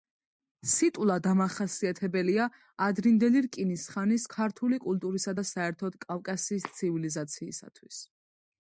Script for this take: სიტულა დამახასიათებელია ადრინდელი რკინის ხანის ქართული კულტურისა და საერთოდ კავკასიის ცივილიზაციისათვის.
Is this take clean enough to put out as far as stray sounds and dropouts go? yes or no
yes